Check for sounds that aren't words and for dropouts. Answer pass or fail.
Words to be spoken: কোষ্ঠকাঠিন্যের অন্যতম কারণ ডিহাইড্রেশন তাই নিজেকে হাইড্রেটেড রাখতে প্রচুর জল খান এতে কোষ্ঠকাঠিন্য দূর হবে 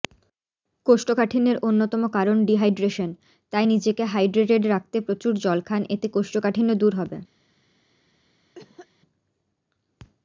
fail